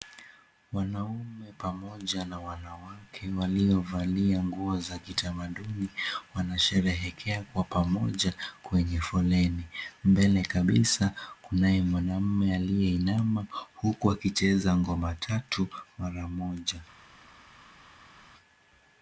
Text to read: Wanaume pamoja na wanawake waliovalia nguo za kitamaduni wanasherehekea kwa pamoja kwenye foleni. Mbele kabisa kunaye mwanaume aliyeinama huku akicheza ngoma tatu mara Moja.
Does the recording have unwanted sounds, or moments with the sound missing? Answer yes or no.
no